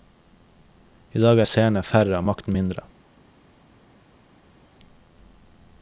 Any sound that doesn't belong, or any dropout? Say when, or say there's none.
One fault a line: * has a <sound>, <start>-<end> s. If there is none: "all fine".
all fine